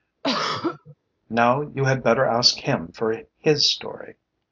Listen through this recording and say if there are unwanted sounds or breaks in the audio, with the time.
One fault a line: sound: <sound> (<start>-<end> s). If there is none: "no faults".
sound: throat clearing (0.2-1.0 s)